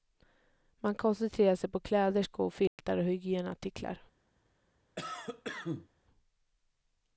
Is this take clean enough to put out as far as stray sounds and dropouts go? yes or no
no